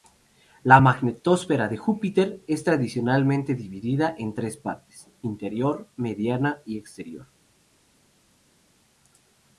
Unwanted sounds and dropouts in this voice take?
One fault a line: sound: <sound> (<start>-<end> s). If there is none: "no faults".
no faults